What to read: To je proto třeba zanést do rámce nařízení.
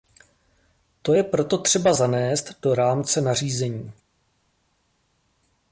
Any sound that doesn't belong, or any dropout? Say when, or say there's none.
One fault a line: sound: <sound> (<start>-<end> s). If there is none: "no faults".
no faults